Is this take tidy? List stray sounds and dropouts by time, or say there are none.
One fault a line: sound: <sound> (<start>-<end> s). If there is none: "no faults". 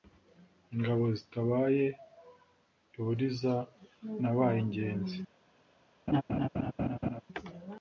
sound: laugh (6.1-7.2 s)